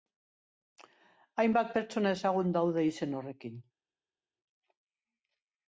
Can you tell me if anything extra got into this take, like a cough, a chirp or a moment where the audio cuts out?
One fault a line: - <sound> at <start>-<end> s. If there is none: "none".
none